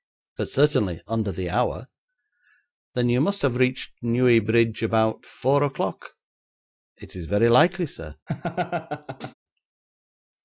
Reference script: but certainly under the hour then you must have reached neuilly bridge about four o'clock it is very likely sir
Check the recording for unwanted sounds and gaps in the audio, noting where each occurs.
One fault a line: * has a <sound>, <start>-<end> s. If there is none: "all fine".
* has a laugh, 8.3-9.3 s